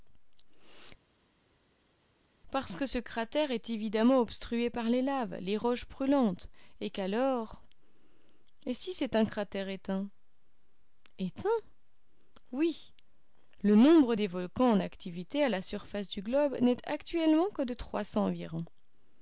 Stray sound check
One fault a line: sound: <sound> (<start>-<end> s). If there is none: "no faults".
no faults